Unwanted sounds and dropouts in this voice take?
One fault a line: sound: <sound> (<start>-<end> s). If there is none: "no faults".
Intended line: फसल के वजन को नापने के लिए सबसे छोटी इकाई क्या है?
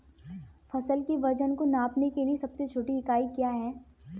no faults